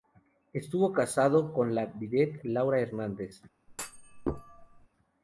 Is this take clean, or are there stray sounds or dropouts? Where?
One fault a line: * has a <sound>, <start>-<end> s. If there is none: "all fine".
* has a thud, 3.7-4.9 s